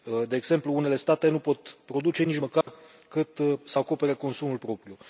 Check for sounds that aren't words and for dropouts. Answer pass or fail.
fail